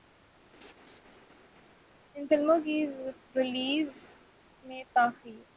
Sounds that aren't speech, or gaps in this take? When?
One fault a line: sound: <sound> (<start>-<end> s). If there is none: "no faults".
sound: laugh (0.5-1.8 s)